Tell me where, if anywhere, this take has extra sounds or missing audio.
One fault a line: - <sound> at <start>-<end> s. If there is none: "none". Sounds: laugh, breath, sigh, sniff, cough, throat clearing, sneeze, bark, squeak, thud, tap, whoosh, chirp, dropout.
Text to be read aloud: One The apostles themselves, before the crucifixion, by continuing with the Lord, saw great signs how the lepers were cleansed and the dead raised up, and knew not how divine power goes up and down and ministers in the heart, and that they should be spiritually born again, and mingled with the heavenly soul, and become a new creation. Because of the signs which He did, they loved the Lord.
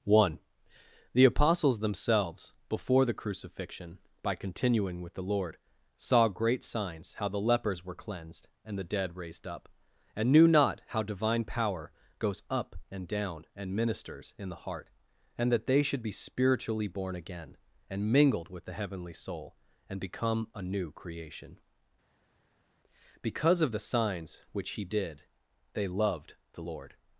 none